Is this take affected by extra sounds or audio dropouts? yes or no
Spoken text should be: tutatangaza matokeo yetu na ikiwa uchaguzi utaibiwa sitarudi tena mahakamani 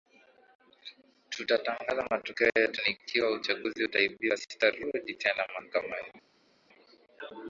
no